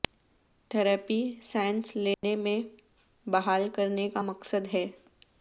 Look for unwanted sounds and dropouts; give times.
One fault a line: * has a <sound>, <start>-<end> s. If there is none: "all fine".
* has a dropout, 2.1-2.2 s